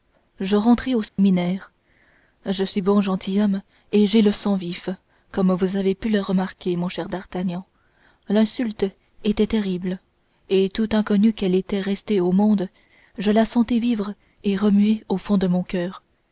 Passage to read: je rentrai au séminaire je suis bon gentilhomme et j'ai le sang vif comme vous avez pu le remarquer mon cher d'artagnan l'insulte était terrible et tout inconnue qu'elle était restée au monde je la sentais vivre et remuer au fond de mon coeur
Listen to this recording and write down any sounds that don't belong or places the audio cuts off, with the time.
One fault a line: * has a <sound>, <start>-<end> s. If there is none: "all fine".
* has a dropout, 1.1-1.2 s